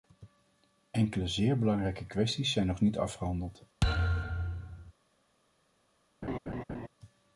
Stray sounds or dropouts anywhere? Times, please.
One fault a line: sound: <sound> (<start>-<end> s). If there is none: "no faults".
sound: thud (3.8-4.9 s)
sound: laugh (6.2-6.9 s)